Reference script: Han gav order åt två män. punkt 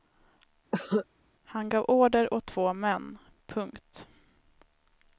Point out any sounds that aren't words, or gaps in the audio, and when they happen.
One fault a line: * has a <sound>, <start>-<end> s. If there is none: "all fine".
* has a cough, 0.7-1.1 s